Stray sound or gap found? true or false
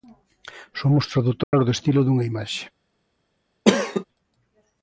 true